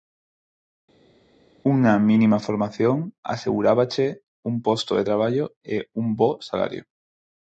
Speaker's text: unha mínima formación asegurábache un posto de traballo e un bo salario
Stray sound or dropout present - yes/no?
no